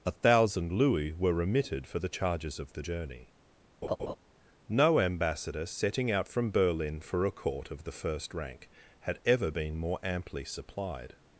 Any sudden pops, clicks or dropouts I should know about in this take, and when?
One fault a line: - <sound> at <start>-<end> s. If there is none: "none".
- laugh at 3.8-4.2 s